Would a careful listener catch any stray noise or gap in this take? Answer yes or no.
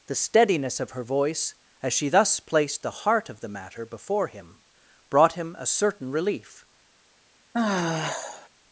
yes